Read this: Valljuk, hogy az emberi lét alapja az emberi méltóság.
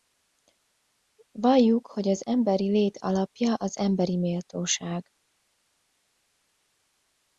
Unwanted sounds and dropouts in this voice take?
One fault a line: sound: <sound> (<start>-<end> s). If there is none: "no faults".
no faults